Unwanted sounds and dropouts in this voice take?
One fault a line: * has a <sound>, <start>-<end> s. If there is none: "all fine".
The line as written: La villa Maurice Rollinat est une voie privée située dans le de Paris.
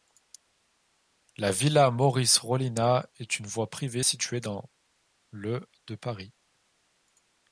all fine